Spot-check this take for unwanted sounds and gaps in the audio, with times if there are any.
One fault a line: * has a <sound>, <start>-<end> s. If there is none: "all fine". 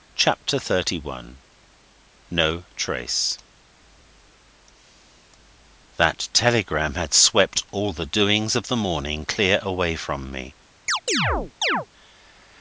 * has a chirp, 10.9-11.9 s